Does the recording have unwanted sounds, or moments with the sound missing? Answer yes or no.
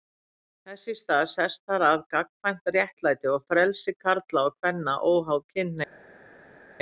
no